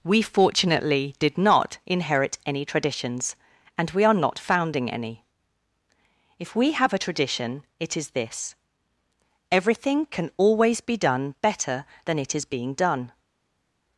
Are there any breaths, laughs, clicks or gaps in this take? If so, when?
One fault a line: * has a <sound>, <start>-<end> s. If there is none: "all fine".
all fine